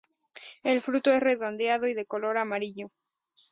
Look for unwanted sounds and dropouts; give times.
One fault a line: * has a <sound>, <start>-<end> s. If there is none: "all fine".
all fine